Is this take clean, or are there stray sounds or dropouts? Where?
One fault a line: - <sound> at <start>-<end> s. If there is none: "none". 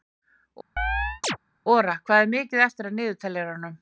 - chirp at 0.8-1.4 s